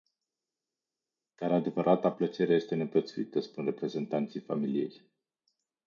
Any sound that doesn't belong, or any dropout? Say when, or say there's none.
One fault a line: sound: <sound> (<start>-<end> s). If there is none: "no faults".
no faults